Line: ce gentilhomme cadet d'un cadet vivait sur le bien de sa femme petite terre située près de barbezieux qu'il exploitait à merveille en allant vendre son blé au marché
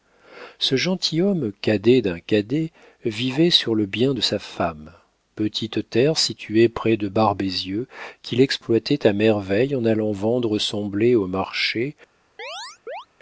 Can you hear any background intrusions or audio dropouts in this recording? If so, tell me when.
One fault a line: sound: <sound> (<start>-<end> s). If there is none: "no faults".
sound: chirp (12.4-13.1 s)